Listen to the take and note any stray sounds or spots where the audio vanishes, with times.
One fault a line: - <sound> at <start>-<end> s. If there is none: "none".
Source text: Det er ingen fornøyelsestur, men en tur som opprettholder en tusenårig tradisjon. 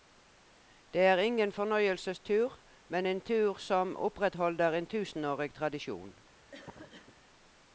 - cough at 6.5-7.2 s